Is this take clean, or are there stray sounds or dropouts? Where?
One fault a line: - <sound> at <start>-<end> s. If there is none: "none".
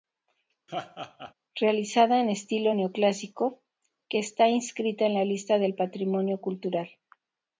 - laugh at 0.7-1.3 s